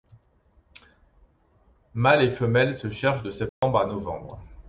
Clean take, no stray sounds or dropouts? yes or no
no